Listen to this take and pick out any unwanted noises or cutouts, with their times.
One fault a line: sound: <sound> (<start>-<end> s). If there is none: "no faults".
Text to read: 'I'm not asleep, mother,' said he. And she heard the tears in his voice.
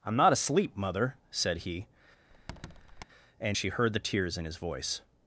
sound: squeak (2.3-3.0 s)